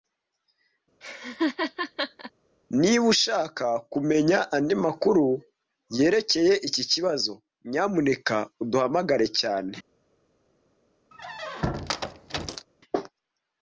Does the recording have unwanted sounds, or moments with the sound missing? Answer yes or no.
yes